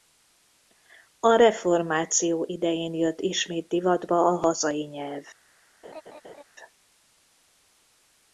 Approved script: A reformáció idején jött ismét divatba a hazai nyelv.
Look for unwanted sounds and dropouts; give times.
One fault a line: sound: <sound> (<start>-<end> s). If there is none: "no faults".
sound: laugh (5.8-6.4 s)